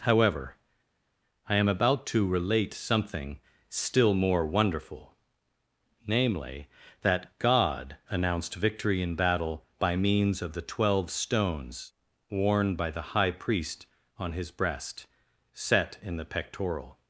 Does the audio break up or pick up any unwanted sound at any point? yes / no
no